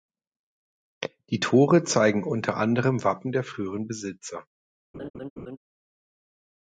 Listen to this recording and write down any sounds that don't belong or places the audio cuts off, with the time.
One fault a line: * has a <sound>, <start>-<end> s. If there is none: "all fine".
* has a laugh, 4.9-5.6 s